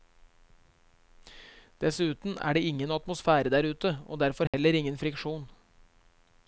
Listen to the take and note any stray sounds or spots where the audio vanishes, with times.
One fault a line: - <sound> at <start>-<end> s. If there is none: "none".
- dropout at 4.5-4.5 s